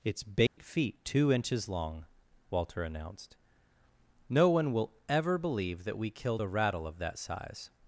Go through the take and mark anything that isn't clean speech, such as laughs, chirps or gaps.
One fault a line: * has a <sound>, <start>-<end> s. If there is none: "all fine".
* has a dropout, 0.5-0.6 s